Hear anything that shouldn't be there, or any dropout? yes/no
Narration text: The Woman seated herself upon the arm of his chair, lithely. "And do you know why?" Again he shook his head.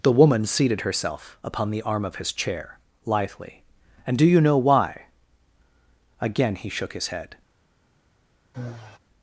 yes